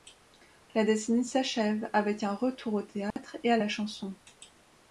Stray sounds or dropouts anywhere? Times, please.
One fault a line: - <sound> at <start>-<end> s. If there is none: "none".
- dropout at 3.1-3.2 s